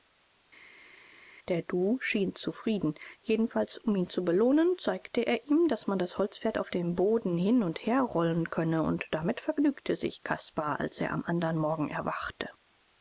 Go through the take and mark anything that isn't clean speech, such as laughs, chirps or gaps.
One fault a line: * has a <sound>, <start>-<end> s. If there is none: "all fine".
all fine